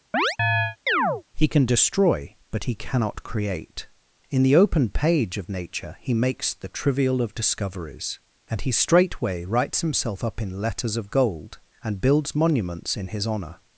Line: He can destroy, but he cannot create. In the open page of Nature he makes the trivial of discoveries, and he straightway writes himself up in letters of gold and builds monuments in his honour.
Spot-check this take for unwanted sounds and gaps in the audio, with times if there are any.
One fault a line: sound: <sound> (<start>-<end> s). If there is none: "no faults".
sound: chirp (0.1-1.2 s)